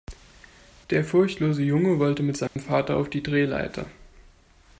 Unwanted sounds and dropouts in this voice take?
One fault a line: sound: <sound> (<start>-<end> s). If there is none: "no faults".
sound: dropout (2.5-2.6 s)